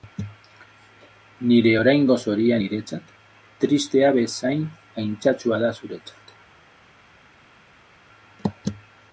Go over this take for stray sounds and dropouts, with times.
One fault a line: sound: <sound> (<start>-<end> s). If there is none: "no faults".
no faults